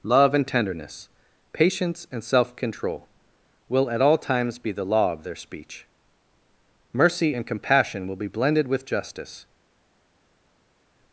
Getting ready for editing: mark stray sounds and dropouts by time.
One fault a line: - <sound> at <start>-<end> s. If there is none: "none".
none